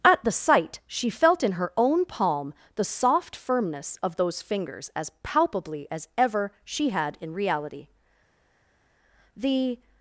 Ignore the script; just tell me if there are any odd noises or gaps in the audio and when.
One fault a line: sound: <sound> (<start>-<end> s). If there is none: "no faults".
no faults